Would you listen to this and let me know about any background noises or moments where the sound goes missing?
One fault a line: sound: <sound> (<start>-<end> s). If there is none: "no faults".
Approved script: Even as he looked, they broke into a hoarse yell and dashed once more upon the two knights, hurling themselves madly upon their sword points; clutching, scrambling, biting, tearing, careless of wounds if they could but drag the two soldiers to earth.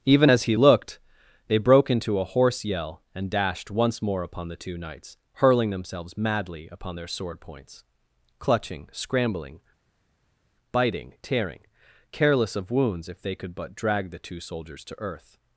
no faults